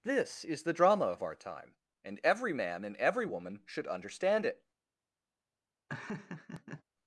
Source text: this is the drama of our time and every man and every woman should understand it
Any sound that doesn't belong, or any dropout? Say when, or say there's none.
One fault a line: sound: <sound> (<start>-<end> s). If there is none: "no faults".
sound: laugh (5.9-6.8 s)